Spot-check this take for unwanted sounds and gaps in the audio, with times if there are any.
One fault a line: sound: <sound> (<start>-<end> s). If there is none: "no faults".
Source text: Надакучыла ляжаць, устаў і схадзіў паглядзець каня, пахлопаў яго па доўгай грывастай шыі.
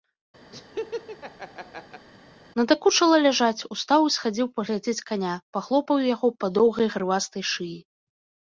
sound: laugh (0.5-2.1 s)